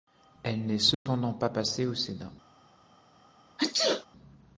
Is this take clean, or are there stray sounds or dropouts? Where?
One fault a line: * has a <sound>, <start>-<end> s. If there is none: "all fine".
* has a dropout, 0.9-1.1 s
* has a sneeze, 3.6-4.1 s